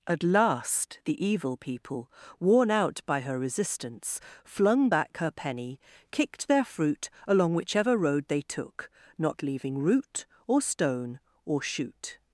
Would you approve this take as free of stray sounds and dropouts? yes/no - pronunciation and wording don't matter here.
yes